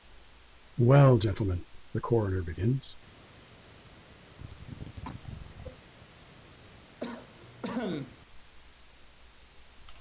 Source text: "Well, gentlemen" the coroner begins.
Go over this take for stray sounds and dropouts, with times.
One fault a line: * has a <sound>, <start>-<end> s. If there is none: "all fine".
* has a cough, 4.3-5.8 s
* has a cough, 7.0-8.2 s